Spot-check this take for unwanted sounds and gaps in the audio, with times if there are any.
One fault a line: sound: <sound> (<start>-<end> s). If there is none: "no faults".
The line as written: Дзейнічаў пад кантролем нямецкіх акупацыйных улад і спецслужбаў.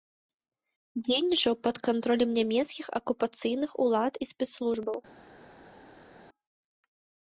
no faults